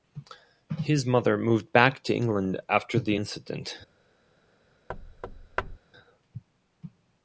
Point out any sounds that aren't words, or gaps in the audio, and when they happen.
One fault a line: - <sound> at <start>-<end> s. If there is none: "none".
- thud at 4.9-5.8 s